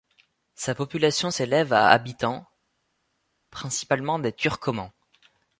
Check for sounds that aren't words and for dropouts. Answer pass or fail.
pass